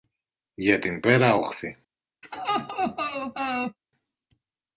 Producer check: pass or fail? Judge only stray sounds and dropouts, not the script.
fail